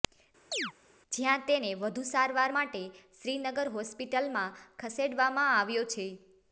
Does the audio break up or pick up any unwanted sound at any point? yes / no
yes